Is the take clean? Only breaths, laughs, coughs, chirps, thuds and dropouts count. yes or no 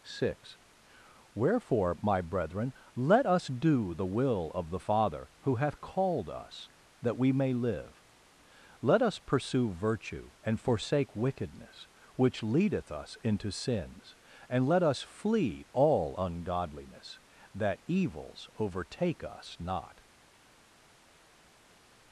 yes